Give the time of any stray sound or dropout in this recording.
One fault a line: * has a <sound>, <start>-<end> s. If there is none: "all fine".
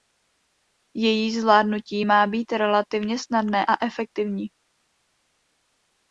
all fine